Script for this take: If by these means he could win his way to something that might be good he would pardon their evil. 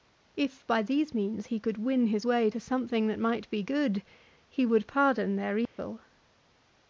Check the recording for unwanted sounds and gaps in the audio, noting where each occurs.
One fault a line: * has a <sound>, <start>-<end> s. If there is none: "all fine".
* has a dropout, 5.7-5.8 s